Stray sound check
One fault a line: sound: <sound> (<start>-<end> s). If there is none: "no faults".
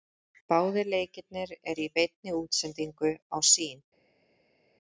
no faults